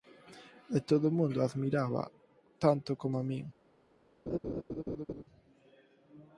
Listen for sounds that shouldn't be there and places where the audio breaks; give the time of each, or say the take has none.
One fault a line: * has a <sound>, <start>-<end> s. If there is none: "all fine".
* has a laugh, 4.3-5.2 s